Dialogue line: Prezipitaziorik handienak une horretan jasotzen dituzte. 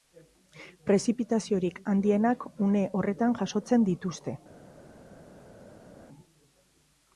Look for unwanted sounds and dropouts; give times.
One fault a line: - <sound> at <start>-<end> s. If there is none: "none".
none